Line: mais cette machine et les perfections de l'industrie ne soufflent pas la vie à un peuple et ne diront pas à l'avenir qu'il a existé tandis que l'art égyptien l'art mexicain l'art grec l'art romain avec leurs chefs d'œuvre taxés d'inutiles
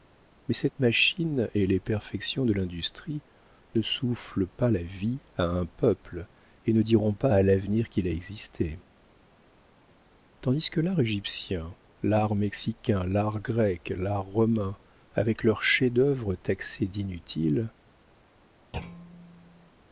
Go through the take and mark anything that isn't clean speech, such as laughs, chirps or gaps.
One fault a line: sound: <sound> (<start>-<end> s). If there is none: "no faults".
sound: thud (18.7-19.7 s)